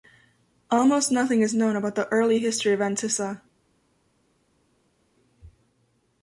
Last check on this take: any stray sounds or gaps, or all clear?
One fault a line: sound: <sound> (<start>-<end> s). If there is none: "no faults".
no faults